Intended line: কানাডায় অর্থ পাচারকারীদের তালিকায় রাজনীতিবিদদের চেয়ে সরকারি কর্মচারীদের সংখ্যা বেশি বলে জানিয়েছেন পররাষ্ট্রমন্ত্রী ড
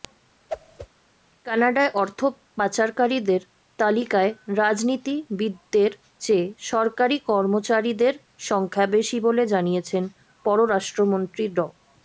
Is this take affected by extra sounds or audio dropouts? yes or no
yes